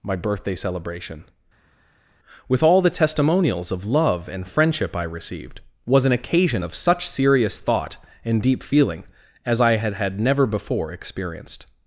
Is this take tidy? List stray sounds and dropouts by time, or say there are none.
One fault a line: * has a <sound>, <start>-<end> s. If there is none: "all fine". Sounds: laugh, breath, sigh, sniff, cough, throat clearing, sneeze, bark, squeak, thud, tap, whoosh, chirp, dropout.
all fine